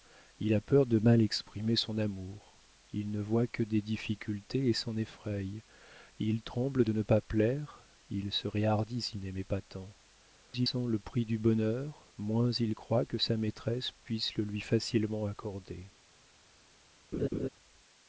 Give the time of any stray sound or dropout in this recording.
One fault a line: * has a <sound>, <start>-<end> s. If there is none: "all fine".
* has a laugh, 17.1-17.5 s